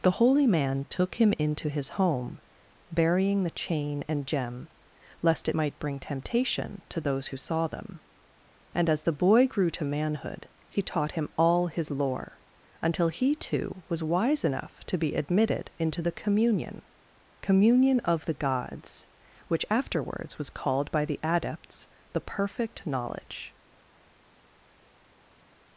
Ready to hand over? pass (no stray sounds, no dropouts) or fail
pass